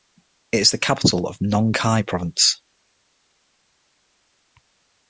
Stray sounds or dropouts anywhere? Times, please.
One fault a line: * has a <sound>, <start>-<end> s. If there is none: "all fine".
all fine